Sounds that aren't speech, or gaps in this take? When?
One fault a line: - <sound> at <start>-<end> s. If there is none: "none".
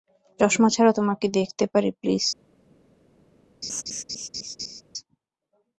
- laugh at 3.6-4.8 s